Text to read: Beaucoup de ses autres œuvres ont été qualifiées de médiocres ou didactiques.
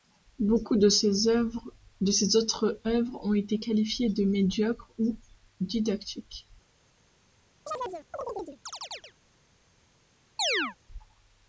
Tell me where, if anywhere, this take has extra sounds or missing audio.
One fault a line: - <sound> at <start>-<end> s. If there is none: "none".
- chirp at 7.7-9.1 s
- chirp at 10.4-10.8 s